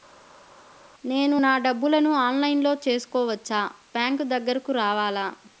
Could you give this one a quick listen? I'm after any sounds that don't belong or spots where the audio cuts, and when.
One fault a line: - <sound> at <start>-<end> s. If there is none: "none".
none